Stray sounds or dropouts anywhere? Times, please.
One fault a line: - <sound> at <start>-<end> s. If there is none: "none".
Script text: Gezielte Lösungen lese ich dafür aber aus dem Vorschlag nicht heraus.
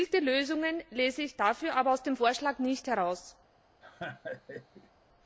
- laugh at 3.8-4.9 s